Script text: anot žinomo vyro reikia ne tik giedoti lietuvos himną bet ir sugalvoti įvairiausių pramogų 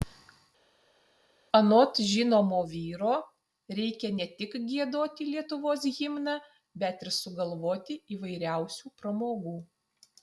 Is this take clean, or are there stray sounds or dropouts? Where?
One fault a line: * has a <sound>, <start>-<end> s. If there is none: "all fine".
all fine